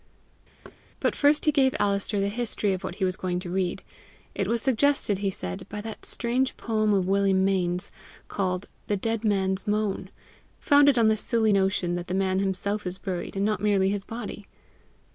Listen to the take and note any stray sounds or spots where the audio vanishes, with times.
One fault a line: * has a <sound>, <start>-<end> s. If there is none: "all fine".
* has a thud, 0.6-0.8 s